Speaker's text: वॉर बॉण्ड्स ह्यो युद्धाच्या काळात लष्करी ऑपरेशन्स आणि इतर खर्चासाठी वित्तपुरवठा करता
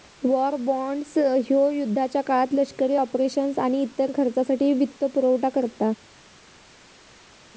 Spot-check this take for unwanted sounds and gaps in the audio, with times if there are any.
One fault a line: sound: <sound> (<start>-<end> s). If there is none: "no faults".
no faults